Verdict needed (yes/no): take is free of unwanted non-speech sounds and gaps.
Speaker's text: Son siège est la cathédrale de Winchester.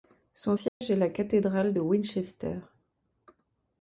no